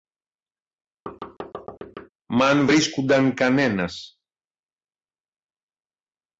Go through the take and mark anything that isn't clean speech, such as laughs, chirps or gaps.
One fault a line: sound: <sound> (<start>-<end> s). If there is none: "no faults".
sound: thud (1.1-2.1 s)